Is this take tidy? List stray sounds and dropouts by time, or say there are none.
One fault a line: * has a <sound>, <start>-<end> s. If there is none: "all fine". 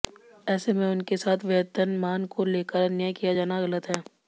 all fine